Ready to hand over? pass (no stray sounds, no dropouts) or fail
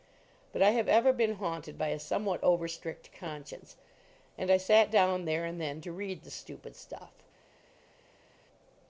pass